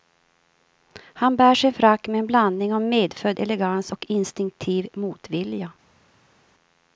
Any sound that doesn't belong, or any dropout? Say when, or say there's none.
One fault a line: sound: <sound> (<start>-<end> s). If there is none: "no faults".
no faults